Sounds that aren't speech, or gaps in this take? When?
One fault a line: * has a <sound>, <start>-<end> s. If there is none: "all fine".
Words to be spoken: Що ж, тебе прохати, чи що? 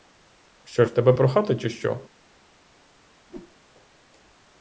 * has a whoosh, 3.3-3.6 s